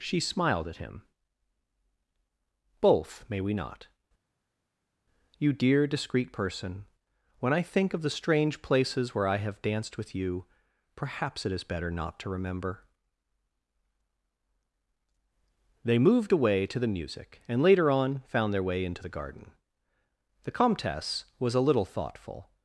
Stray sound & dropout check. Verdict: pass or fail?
pass